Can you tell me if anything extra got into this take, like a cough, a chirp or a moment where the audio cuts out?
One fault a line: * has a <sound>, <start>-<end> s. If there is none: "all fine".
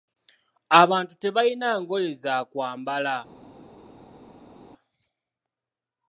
all fine